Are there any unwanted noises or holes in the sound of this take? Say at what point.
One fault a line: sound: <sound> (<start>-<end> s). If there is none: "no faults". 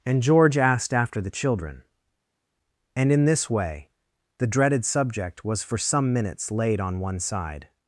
no faults